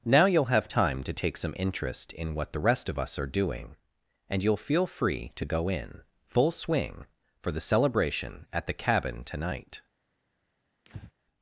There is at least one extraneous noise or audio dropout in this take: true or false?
true